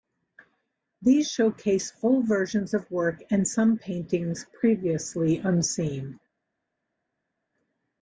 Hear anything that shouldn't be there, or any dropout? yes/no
no